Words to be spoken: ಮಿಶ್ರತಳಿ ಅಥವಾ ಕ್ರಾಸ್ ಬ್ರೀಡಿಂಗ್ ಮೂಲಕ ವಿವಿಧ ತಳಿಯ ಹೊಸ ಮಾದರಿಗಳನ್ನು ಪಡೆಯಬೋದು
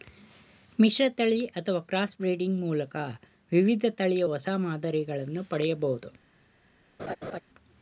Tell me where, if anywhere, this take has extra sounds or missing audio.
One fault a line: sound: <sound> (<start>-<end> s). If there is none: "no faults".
sound: laugh (7.0-7.4 s)